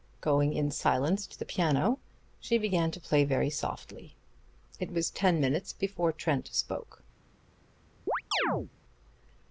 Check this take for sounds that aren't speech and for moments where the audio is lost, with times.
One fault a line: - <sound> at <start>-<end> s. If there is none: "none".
- chirp at 8.1-8.7 s